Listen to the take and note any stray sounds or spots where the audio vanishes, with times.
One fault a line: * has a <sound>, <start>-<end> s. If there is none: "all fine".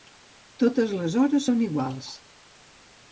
all fine